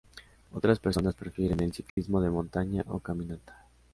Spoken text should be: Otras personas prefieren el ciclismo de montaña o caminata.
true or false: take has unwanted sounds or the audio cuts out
true